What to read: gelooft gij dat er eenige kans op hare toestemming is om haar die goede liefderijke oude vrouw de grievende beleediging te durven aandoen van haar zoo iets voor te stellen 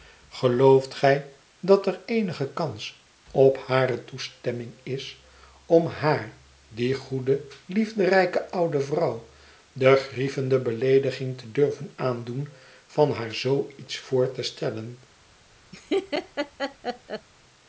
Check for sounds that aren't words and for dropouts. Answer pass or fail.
fail